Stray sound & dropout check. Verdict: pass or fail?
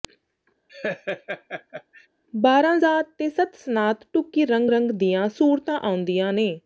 fail